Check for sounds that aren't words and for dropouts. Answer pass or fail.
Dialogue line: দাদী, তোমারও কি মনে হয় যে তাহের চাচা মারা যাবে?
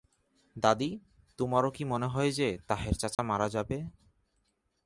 fail